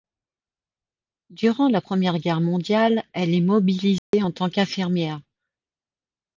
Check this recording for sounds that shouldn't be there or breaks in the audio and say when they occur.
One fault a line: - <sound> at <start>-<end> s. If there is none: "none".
- dropout at 4.0-4.1 s